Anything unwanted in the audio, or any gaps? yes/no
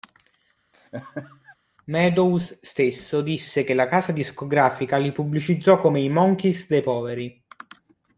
yes